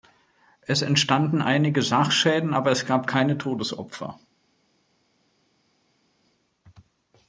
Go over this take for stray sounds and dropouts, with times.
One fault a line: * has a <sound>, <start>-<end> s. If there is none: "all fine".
all fine